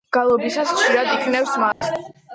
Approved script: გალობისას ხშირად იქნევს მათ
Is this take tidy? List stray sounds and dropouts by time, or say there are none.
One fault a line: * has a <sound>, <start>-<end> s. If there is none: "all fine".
* has a dropout, 1.7-1.8 s